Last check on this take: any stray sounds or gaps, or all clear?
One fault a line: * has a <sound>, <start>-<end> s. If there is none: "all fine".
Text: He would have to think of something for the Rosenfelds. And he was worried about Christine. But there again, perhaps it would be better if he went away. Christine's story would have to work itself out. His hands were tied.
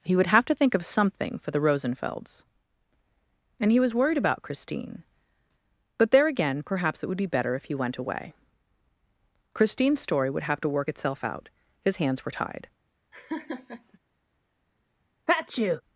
* has a laugh, 13.1-14.0 s
* has a sneeze, 15.3-15.8 s